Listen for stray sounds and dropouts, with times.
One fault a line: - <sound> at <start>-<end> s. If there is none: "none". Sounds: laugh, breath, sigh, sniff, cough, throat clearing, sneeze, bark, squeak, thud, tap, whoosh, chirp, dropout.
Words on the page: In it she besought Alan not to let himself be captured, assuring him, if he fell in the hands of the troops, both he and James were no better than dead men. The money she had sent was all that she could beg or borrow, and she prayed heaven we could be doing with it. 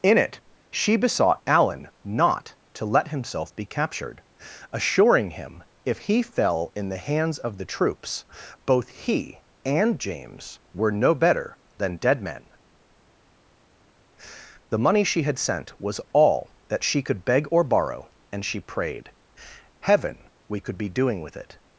none